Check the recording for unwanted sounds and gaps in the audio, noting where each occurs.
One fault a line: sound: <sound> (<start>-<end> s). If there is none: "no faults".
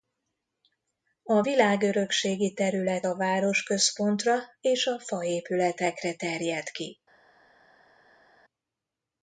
no faults